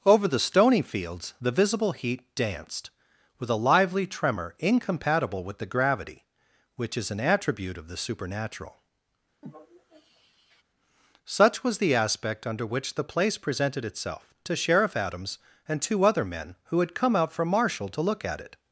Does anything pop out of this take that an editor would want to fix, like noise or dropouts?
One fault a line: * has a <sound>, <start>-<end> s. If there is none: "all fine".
* has a sigh, 9.4-10.6 s